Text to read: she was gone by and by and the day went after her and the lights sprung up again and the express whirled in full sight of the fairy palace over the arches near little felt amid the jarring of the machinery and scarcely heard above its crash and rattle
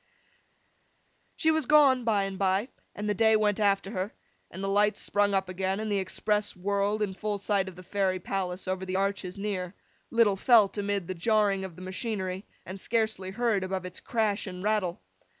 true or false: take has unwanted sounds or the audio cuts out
false